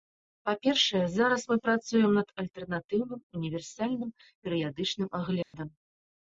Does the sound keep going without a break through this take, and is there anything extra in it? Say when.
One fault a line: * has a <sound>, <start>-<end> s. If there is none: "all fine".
* has a dropout, 5.4-5.5 s